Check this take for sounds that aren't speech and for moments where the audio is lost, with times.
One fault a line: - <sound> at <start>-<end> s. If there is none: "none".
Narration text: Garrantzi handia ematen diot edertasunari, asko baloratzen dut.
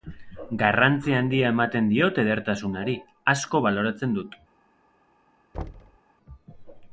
- thud at 5.5-6.0 s